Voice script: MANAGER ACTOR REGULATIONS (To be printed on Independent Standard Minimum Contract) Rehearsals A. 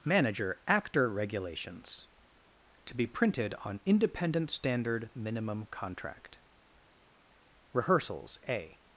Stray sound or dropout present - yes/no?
no